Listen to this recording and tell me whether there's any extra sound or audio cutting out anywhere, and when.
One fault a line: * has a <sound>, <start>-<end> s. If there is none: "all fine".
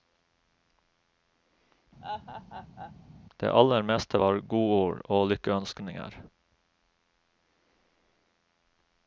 * has a laugh, 2.0-2.9 s